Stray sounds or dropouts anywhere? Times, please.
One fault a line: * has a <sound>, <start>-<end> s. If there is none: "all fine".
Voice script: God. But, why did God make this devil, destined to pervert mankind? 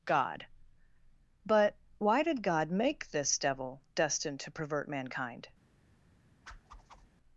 * has a whoosh, 6.5-7.1 s